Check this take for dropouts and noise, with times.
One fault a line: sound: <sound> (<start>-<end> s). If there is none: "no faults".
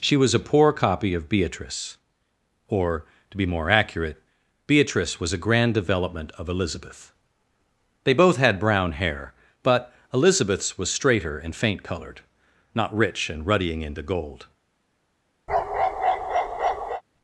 sound: bark (15.5-17.0 s)